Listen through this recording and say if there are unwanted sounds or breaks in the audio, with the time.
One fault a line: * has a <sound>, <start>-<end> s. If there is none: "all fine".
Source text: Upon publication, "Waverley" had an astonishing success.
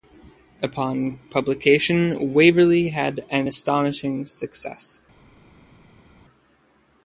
all fine